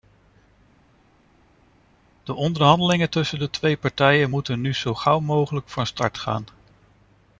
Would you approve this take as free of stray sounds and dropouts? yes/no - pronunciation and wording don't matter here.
yes